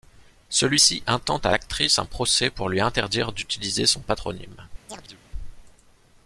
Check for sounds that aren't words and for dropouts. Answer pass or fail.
fail